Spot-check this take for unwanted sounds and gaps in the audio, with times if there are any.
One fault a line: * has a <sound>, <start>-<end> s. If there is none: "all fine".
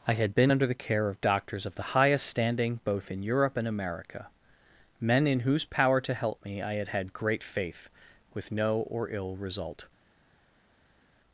all fine